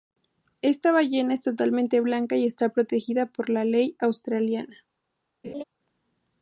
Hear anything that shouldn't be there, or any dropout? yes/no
yes